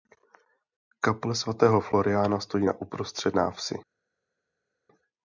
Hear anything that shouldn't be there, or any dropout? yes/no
no